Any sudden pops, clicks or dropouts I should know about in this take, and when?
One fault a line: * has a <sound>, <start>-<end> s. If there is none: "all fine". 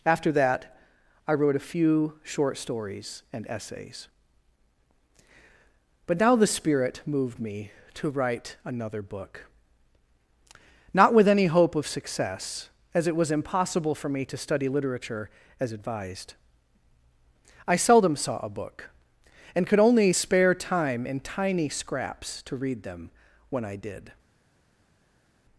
all fine